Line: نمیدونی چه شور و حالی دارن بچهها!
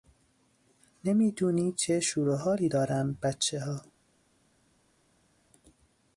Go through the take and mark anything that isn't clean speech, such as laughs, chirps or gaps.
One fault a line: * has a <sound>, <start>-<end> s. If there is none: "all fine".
all fine